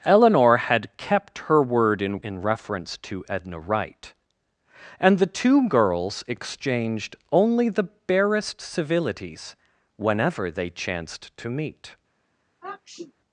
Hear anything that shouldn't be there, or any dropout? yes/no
yes